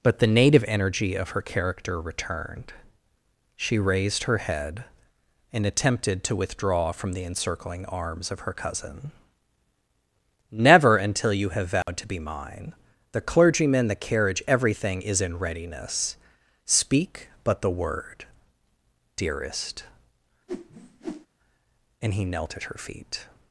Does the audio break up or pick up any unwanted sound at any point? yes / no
yes